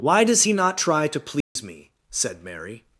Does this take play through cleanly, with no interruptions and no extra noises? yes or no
no